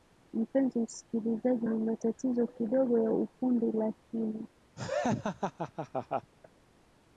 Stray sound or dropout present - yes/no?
yes